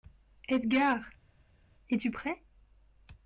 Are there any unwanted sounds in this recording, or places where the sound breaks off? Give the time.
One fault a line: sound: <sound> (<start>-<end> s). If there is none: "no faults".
no faults